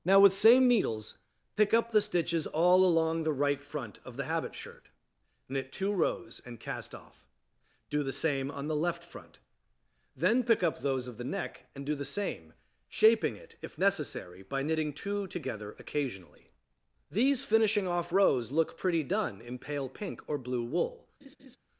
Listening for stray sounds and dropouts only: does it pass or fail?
fail